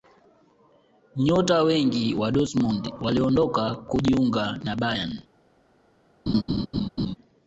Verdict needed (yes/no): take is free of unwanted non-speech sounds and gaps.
no